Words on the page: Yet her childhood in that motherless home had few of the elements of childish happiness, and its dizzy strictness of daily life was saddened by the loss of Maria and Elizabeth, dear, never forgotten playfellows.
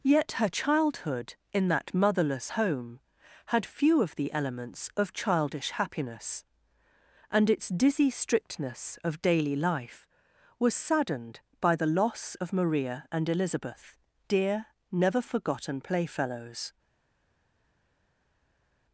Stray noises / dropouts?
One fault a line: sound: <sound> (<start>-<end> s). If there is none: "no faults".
no faults